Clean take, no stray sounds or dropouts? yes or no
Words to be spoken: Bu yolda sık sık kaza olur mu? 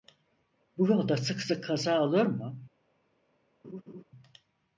no